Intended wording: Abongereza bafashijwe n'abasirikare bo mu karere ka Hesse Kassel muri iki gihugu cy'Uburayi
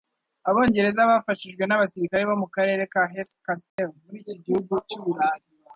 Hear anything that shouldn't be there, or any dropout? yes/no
yes